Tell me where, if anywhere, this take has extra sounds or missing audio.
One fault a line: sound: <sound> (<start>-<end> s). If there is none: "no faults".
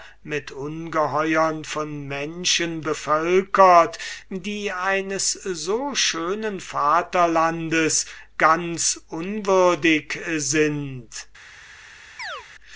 sound: chirp (12.2-12.5 s)